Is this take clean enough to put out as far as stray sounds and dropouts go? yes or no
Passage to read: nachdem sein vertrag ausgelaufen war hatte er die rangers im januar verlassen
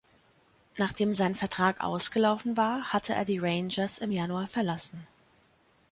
yes